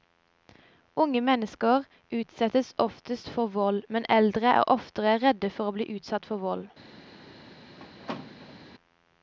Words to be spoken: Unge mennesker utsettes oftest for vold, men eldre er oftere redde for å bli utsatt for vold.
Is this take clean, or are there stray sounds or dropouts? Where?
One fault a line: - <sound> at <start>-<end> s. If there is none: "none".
- squeak at 7.8-8.6 s